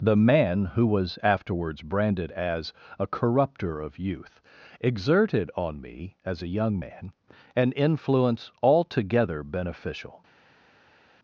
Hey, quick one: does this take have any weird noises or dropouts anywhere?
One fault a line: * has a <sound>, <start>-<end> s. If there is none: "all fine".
all fine